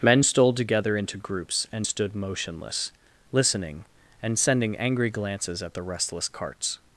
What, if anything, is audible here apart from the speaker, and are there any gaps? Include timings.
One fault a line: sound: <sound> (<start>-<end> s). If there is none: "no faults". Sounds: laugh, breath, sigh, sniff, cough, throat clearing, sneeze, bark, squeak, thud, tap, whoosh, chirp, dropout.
no faults